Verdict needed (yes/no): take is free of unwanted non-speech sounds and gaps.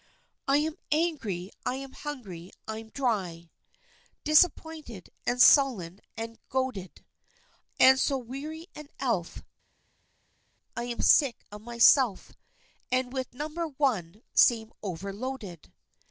yes